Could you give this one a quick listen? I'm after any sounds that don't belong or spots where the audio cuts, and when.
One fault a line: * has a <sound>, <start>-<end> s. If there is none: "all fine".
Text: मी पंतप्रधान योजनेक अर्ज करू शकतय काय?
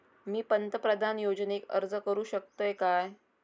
all fine